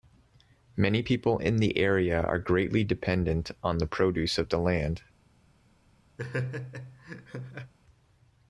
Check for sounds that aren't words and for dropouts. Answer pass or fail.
fail